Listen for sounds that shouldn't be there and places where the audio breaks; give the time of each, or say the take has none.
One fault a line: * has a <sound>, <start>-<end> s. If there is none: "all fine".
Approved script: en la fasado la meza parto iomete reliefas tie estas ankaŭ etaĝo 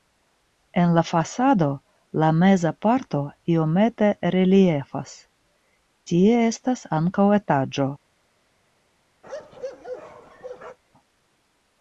* has a bark, 9.2-10.8 s